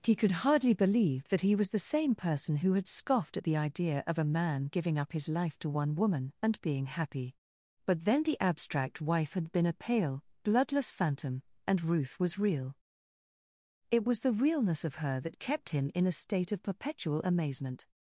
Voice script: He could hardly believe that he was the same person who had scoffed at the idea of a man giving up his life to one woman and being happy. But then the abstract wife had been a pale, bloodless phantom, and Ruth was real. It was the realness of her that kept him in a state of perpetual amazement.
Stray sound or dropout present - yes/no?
no